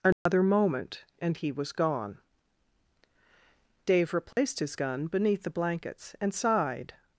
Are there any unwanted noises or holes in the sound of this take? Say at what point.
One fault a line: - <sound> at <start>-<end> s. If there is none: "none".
- dropout at 0.1-0.3 s
- dropout at 4.3-4.4 s